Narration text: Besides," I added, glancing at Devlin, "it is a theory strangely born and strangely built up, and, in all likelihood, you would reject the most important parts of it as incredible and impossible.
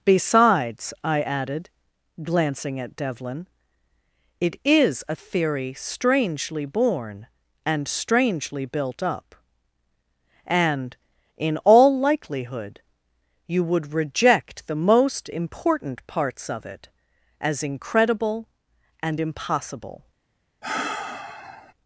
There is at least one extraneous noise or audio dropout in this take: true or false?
true